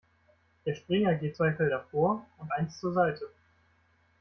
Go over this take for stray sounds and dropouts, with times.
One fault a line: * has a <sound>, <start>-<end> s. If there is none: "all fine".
all fine